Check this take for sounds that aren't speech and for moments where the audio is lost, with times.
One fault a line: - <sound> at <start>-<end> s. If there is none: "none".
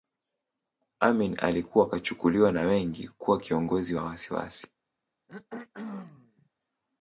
- throat clearing at 5.3-6.5 s